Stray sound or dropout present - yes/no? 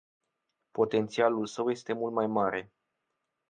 no